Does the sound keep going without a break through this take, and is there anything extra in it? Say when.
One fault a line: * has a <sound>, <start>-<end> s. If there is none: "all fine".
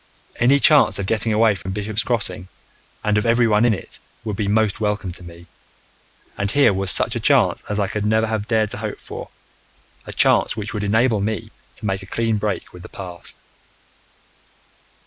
* has a dropout, 1.6-1.7 s